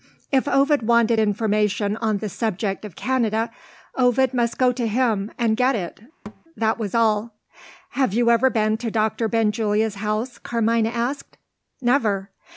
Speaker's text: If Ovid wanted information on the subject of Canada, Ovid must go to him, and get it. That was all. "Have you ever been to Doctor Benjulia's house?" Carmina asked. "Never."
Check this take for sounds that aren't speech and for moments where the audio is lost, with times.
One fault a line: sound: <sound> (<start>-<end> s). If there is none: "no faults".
sound: thud (6.3-6.4 s)